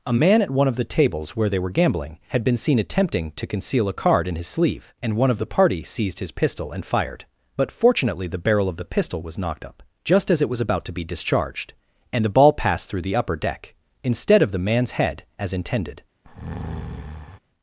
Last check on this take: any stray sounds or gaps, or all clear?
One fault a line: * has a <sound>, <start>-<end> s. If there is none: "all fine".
* has a breath, 16.2-17.4 s